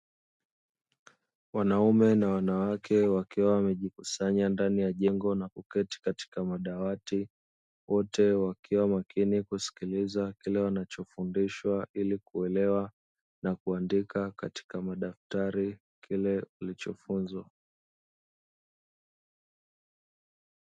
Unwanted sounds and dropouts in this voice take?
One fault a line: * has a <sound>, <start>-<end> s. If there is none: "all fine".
all fine